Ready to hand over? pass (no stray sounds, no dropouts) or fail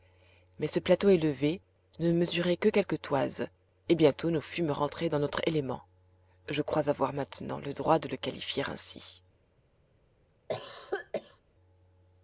fail